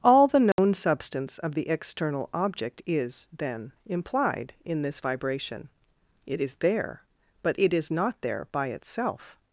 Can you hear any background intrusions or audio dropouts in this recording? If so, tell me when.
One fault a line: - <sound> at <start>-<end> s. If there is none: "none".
- dropout at 0.5-0.6 s